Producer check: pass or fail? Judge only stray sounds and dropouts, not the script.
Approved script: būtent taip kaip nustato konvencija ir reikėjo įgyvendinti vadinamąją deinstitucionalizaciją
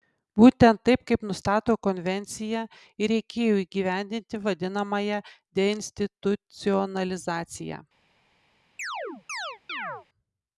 fail